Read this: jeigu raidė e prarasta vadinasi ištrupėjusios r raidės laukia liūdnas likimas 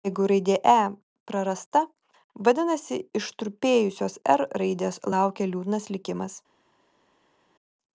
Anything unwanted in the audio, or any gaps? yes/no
no